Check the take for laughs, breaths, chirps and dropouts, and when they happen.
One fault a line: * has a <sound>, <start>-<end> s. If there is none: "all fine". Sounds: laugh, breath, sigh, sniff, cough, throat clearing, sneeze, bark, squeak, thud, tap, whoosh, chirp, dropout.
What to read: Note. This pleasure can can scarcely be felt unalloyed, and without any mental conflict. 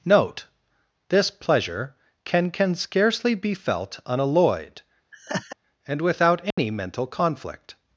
* has a laugh, 5.1-5.6 s
* has a dropout, 6.5-6.6 s